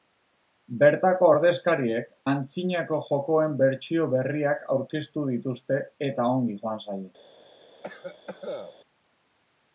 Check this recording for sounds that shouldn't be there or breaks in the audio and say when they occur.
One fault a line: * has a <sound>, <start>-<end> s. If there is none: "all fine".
* has a cough, 7.8-8.8 s